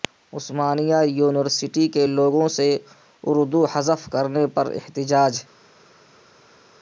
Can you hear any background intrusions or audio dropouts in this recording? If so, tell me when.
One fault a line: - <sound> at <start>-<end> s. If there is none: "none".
none